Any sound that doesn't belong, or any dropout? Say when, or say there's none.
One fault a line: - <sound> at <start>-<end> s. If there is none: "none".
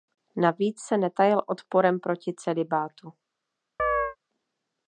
- chirp at 3.8-4.2 s